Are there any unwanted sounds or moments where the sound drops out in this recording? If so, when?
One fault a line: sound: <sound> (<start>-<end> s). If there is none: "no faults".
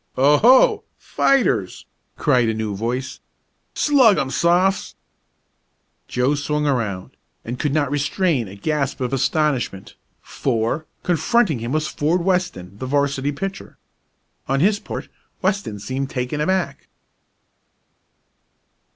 no faults